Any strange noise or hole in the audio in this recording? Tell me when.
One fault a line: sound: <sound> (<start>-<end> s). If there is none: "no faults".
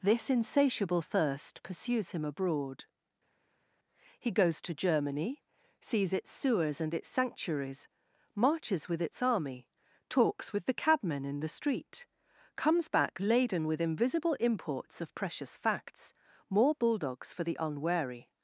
no faults